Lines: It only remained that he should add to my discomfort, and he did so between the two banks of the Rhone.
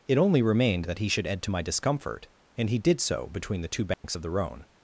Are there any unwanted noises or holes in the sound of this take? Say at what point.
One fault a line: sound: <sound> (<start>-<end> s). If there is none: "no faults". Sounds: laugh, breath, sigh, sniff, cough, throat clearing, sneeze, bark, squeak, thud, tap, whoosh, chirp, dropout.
sound: dropout (3.9-4.0 s)